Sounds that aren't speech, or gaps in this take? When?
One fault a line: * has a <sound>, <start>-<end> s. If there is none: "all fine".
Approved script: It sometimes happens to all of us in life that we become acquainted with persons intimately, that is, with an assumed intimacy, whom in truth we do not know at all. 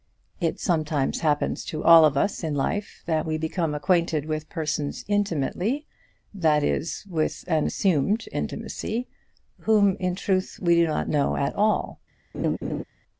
* has a laugh, 12.3-12.8 s